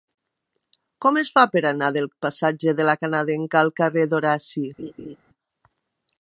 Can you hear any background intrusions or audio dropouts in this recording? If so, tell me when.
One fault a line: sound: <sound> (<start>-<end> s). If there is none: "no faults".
sound: laugh (4.8-5.2 s)